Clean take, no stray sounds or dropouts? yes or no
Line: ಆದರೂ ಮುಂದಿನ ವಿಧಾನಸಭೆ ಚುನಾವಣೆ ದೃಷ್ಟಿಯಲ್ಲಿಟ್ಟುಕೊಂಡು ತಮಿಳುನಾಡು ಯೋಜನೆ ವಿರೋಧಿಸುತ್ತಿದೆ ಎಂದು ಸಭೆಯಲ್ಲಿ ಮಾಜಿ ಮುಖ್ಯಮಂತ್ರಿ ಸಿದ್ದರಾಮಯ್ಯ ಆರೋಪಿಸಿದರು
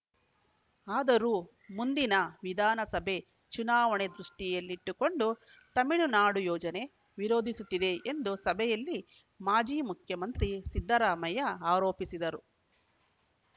yes